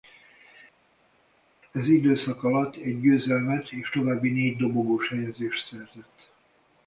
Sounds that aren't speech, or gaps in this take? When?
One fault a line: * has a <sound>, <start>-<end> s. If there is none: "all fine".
all fine